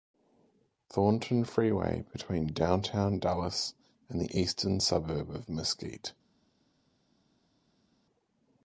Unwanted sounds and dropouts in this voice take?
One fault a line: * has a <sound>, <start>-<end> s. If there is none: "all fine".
all fine